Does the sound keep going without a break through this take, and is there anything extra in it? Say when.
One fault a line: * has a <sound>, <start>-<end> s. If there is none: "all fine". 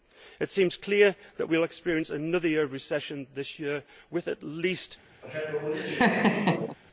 * has a laugh, 5.2-6.8 s